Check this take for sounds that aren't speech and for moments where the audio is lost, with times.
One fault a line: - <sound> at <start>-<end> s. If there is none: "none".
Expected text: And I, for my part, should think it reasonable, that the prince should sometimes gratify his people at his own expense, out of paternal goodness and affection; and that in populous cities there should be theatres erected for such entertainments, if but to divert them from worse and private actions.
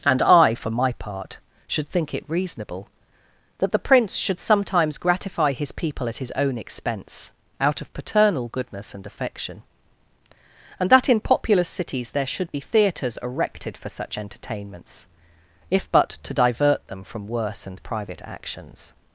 none